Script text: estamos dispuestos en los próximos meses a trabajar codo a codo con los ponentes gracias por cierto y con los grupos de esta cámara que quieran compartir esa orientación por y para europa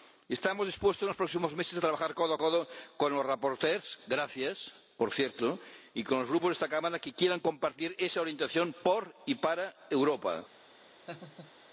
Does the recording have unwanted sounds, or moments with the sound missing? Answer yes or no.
yes